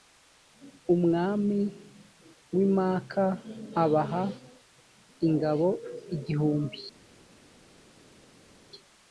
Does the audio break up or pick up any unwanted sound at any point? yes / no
no